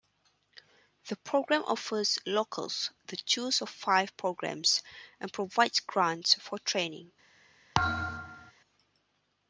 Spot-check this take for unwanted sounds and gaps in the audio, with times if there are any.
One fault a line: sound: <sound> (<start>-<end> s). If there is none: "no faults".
sound: thud (7.7-8.5 s)